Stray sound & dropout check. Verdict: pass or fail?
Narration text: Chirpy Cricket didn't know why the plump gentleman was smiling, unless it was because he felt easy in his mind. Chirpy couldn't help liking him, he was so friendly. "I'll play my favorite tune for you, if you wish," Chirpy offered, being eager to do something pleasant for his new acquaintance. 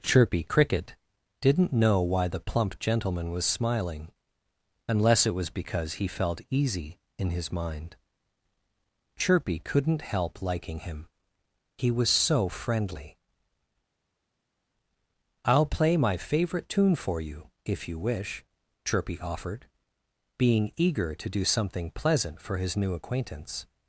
pass